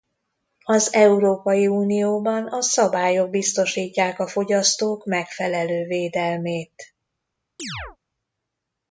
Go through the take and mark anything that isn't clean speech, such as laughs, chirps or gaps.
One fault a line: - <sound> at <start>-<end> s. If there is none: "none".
- chirp at 7.6-8.0 s